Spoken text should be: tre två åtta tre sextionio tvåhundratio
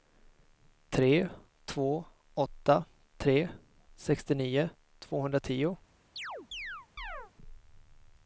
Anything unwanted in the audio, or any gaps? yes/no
yes